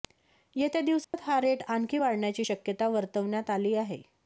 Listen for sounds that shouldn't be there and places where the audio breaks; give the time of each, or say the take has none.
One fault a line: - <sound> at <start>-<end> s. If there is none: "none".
- dropout at 1.0-1.1 s